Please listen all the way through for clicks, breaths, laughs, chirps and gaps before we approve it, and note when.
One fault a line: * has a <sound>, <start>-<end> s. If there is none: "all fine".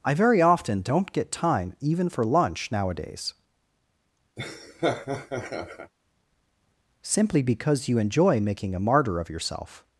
* has a laugh, 4.4-5.9 s